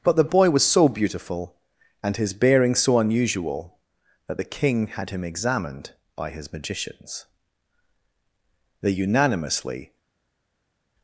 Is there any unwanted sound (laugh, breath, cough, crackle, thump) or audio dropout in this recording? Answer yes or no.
no